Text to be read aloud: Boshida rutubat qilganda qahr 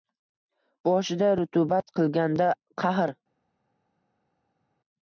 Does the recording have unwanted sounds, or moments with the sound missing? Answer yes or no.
no